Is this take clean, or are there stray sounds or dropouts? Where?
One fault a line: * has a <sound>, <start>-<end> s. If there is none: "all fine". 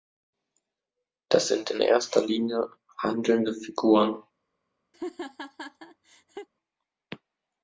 * has a laugh, 4.9-6.5 s